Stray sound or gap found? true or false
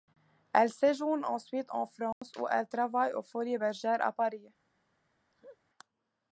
true